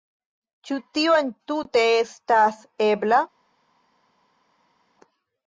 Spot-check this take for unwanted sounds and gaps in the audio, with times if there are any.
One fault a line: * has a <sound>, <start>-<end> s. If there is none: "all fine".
all fine